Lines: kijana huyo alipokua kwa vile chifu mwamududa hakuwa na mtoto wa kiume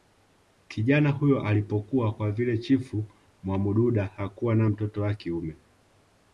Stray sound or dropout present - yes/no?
no